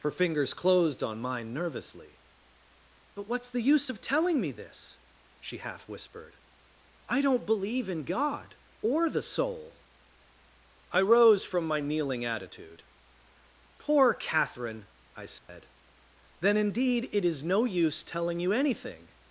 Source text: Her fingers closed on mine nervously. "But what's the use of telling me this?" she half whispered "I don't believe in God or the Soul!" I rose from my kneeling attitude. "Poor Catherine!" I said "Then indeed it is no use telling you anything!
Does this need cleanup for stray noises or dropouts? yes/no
yes